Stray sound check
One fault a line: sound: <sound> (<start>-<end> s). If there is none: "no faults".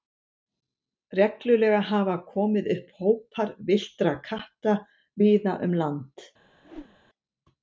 sound: whoosh (6.6-7.0 s)